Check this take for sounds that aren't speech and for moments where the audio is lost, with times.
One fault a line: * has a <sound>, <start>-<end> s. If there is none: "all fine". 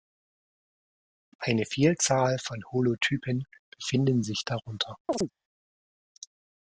* has a chirp, 5.1-5.3 s